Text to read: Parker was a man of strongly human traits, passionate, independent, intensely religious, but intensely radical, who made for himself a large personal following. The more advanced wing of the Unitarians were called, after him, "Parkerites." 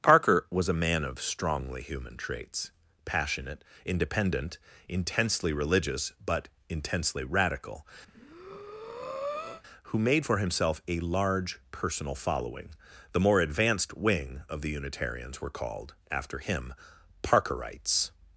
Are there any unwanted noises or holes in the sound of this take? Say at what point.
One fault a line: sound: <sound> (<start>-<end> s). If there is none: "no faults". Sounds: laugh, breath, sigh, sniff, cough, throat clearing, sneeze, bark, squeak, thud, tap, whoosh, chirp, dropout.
sound: breath (8.1-9.6 s)